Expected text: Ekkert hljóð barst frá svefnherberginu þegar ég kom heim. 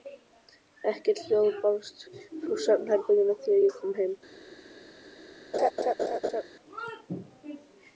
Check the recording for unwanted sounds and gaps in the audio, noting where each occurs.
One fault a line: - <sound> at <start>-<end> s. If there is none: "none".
- laugh at 5.5-6.4 s